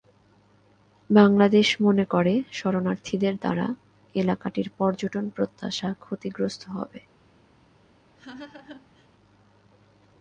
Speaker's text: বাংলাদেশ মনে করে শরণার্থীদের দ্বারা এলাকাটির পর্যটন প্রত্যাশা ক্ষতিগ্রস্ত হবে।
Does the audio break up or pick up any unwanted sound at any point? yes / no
yes